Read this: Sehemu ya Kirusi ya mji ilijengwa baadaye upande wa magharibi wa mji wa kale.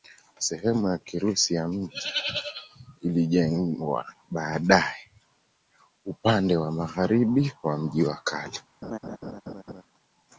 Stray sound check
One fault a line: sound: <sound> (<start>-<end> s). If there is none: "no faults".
sound: laugh (8.8-9.8 s)